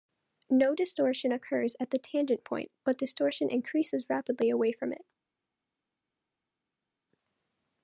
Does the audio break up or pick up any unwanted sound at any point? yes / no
no